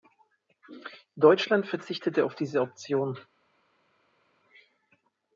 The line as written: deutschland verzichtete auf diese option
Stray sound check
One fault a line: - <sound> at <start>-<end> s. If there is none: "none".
none